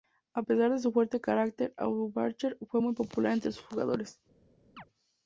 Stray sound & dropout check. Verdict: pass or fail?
fail